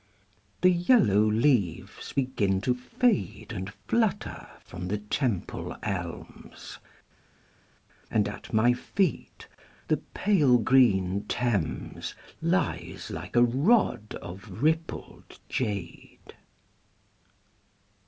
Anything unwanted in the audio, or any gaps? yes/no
no